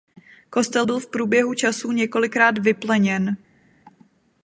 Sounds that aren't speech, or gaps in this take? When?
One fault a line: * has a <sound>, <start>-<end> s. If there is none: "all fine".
all fine